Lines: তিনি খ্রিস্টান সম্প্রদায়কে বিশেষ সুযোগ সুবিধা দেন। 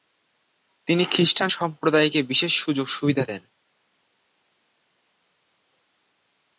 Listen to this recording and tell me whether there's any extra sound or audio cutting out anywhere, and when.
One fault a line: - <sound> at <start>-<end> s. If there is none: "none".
none